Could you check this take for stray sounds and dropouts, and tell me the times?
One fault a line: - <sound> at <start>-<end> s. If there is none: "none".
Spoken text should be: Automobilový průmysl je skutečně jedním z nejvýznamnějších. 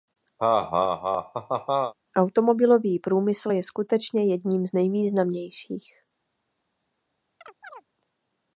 - laugh at 0.4-1.9 s
- chirp at 7.4-7.9 s